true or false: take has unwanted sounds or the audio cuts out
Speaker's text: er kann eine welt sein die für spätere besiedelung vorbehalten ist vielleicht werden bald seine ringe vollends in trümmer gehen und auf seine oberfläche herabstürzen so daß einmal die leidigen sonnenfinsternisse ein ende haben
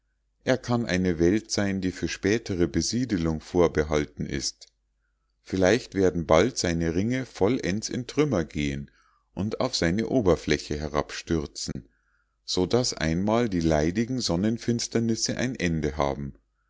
true